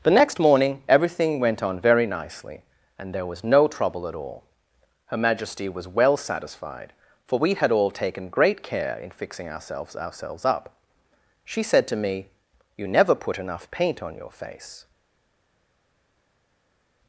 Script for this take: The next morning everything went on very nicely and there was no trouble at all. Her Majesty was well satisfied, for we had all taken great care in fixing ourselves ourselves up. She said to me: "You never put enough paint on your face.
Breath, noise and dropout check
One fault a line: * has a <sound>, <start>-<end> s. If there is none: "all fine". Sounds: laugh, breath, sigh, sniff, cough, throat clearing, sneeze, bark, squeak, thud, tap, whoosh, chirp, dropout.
all fine